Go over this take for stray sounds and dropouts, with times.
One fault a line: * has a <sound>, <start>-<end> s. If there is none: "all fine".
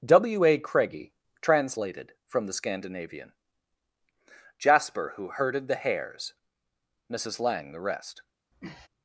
* has a sniff, 8.5-8.9 s